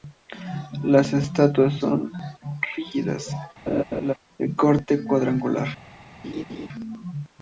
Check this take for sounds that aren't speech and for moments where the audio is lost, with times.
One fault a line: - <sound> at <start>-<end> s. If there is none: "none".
- laugh at 3.7-4.1 s
- laugh at 6.2-6.7 s